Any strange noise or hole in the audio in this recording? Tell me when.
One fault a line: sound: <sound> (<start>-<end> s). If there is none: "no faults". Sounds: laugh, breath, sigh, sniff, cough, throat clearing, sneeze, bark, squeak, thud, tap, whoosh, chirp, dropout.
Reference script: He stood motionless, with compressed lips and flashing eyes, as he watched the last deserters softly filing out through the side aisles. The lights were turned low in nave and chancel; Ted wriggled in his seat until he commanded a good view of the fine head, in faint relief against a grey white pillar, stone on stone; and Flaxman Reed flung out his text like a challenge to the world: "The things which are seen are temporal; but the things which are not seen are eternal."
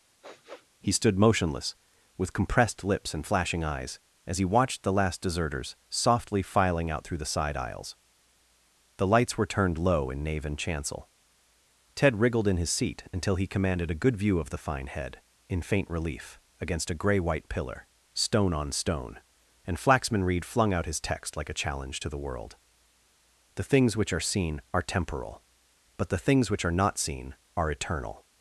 sound: sniff (0.2-0.7 s)